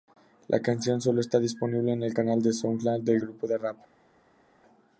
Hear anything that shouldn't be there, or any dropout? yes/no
no